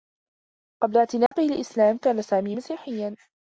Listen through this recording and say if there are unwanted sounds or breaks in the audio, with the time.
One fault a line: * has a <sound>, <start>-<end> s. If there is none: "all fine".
* has a dropout, 1.3-1.3 s